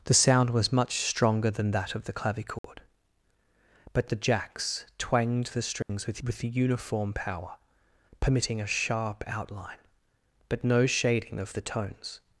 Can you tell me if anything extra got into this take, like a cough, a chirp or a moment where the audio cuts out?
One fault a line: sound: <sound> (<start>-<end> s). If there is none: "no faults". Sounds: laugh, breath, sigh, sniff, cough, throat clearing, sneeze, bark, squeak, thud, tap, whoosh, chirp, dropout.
sound: dropout (2.6-2.6 s)
sound: dropout (5.8-5.9 s)